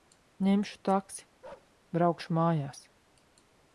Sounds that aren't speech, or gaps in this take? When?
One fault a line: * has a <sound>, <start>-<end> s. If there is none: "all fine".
* has a bark, 1.4-1.8 s